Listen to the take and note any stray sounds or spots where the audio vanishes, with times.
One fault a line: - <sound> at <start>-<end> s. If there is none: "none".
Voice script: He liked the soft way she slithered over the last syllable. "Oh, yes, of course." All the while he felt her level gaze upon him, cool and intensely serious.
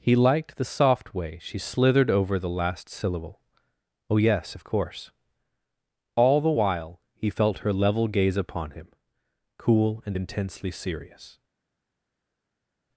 none